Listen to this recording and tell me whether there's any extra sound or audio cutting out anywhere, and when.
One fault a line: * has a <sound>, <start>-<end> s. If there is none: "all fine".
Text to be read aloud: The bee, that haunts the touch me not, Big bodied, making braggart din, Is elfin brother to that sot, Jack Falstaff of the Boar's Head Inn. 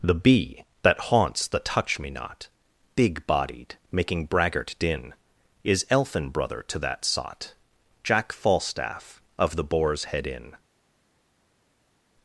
all fine